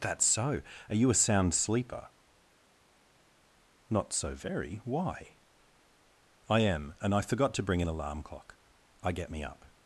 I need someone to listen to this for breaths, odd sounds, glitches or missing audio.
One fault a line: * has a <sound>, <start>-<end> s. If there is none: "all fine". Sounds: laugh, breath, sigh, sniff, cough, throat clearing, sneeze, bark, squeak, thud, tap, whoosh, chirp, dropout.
all fine